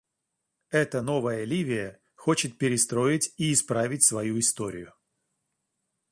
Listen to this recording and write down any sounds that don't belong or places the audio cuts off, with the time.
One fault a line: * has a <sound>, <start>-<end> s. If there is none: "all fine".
all fine